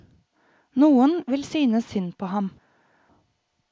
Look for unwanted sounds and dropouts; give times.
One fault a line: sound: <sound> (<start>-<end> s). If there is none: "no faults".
no faults